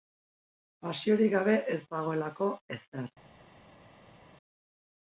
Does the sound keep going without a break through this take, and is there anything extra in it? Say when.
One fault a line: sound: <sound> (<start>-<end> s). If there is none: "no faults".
no faults